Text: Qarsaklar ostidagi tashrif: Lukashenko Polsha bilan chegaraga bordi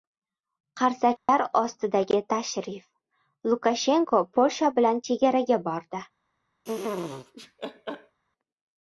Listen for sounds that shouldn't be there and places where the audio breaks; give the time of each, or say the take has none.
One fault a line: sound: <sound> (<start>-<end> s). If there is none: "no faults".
sound: dropout (1.2-1.3 s)
sound: laugh (6.6-8.2 s)